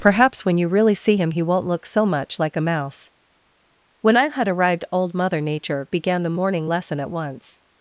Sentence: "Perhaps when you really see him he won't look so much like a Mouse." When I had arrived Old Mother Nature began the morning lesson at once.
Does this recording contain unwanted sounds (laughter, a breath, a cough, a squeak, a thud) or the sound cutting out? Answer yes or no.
no